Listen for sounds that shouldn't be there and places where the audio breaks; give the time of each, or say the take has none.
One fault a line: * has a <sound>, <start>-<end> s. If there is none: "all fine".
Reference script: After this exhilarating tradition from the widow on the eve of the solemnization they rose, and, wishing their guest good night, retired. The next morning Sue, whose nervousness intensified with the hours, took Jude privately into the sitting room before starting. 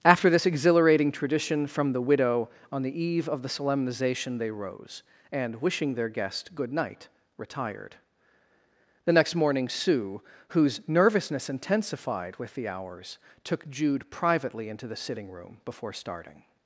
all fine